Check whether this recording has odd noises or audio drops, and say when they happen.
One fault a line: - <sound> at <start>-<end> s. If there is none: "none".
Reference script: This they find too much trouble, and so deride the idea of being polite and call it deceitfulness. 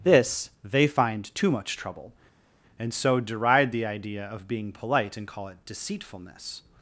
none